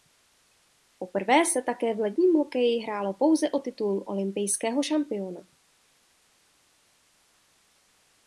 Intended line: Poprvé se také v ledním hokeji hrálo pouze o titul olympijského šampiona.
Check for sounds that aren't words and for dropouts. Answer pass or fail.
pass